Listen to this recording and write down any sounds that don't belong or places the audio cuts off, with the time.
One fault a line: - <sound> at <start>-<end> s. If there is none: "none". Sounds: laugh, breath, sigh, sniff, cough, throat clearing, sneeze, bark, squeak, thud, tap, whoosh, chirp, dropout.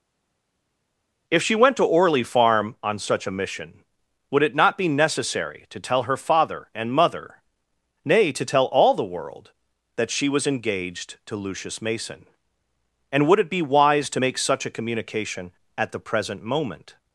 none